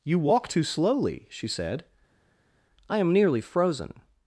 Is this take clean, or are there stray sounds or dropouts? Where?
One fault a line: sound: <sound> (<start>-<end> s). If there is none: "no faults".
no faults